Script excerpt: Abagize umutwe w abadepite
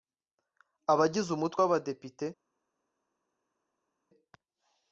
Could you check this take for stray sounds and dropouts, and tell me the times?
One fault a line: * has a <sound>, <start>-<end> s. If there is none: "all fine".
all fine